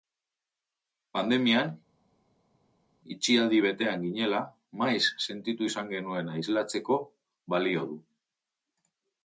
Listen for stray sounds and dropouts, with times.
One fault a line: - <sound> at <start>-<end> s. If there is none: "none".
none